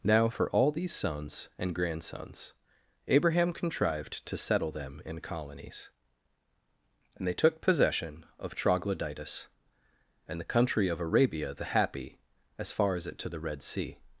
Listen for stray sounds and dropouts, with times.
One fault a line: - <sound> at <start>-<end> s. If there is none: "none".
none